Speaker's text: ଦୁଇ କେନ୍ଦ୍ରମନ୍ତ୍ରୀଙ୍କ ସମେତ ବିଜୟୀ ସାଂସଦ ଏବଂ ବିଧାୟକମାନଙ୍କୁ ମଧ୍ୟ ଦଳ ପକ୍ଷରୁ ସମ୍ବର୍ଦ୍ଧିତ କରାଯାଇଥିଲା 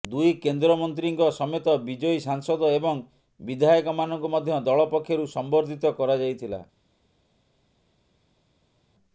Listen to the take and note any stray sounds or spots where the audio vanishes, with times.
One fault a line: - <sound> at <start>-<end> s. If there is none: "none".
none